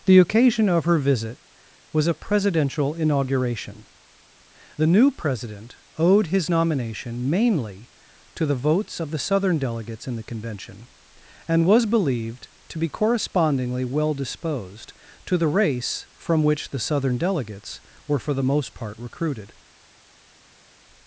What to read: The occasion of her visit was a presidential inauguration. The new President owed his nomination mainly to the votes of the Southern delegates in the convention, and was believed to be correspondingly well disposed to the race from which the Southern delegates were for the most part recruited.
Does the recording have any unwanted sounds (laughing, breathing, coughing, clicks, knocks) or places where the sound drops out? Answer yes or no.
no